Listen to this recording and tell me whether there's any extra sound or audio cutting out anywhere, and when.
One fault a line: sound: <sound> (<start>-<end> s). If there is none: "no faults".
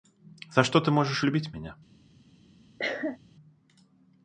sound: cough (2.8-3.2 s)